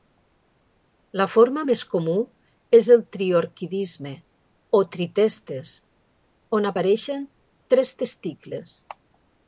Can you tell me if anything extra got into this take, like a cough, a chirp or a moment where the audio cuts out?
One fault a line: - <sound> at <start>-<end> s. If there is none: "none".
none